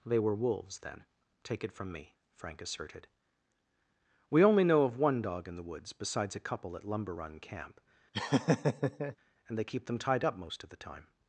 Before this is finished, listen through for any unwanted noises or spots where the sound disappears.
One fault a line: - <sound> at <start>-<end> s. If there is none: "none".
- laugh at 8.1-9.2 s